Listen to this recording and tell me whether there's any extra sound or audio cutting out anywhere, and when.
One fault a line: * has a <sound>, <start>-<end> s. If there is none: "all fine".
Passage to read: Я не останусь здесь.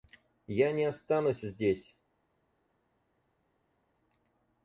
all fine